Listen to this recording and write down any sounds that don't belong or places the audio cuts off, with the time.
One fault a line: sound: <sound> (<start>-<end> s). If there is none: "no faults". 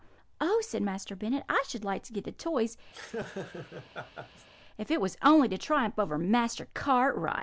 sound: laugh (2.9-4.5 s)